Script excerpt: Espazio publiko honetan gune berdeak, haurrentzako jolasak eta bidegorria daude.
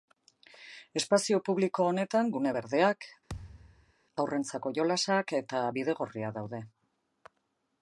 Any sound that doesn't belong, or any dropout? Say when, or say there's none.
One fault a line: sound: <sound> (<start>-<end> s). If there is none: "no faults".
sound: thud (3.3-3.9 s)